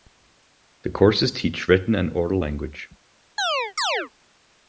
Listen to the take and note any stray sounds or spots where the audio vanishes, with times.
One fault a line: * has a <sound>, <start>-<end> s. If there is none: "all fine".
* has a chirp, 3.4-4.1 s